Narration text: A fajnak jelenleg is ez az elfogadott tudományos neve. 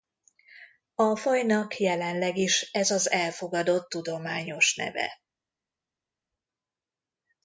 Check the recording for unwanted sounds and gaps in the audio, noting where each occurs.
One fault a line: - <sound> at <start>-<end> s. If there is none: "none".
none